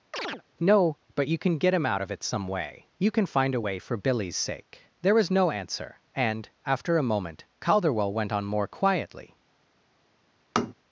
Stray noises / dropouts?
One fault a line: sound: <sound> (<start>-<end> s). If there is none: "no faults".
sound: chirp (0.1-0.4 s)
sound: tap (10.6-10.7 s)